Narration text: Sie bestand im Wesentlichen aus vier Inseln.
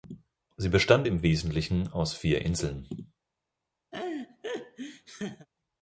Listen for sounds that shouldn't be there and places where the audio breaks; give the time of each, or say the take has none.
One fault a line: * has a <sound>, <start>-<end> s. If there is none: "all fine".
* has a laugh, 3.9-5.5 s